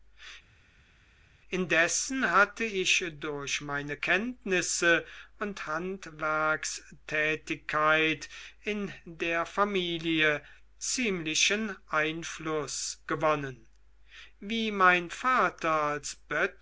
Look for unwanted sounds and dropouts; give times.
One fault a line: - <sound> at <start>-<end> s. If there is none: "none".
none